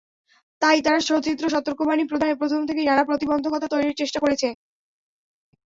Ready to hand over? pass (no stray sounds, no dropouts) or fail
pass